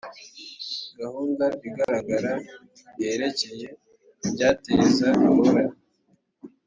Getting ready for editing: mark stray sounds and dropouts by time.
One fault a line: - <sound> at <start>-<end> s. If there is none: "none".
- dropout at 1.8-1.9 s